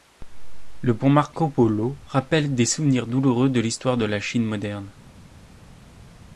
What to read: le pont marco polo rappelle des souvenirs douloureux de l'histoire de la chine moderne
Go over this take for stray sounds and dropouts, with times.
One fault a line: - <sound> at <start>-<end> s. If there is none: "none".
none